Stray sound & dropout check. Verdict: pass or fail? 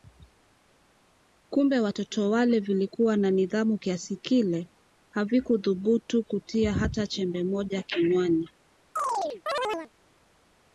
fail